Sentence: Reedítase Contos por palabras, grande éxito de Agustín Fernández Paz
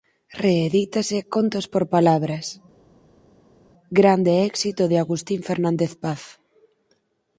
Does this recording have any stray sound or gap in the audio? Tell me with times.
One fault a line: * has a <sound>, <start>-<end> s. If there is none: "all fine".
all fine